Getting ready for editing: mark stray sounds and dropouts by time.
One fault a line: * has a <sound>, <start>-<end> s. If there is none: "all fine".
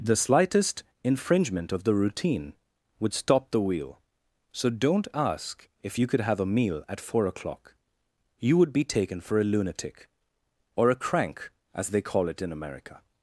all fine